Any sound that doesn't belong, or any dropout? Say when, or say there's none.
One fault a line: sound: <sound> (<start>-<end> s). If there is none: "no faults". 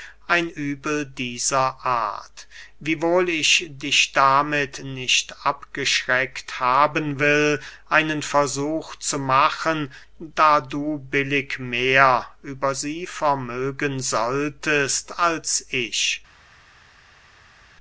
no faults